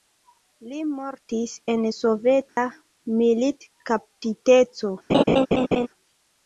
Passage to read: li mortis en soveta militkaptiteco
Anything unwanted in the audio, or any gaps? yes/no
yes